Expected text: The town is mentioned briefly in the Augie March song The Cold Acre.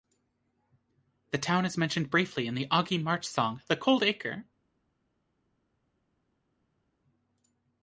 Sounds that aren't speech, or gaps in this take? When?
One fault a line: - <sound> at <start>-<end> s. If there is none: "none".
none